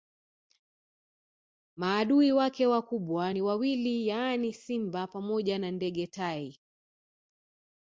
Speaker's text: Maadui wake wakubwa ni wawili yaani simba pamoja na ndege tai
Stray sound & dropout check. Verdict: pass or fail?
pass